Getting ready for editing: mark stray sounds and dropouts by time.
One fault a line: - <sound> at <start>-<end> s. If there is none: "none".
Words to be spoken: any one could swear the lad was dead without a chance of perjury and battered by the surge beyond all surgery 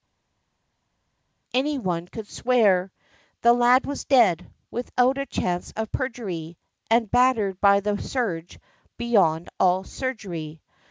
none